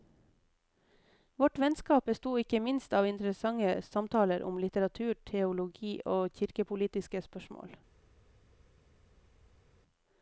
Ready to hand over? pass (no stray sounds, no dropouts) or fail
pass